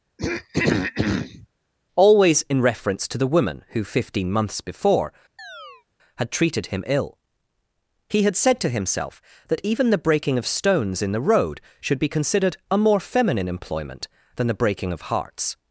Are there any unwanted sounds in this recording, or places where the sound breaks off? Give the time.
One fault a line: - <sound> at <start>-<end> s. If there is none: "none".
- throat clearing at 0.2-1.5 s
- chirp at 5.4-5.9 s